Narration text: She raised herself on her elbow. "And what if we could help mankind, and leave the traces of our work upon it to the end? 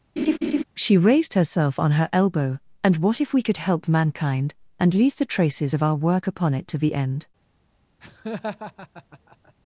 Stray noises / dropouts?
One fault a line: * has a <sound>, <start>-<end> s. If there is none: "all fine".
* has a laugh, 0.2-0.6 s
* has a laugh, 8.0-9.5 s